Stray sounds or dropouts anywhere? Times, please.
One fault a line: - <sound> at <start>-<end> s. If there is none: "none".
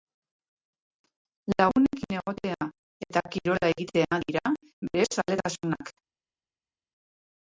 none